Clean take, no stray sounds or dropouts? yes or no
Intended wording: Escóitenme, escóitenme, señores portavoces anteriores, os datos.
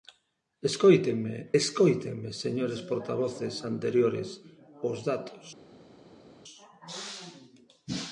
yes